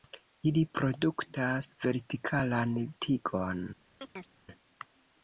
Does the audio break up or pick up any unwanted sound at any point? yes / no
yes